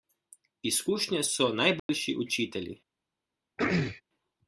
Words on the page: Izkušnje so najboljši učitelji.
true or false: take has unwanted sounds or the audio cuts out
true